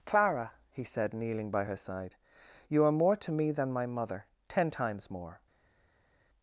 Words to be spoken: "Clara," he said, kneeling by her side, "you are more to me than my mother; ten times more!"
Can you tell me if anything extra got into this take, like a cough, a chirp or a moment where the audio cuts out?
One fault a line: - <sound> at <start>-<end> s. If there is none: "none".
none